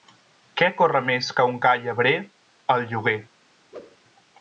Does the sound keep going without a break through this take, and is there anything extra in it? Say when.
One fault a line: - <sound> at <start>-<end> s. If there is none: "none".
- whoosh at 3.7-4.0 s